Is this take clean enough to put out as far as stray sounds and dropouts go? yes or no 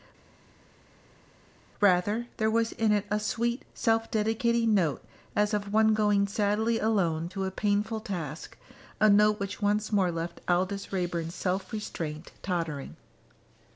yes